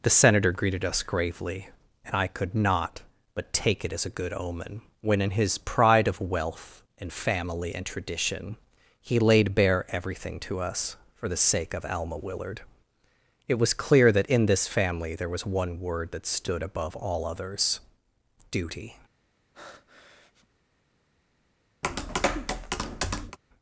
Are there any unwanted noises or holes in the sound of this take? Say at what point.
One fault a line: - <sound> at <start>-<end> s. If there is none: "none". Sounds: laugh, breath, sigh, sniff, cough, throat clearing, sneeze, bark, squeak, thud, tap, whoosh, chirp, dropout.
- breath at 19.5-20.5 s
- tap at 21.8-23.4 s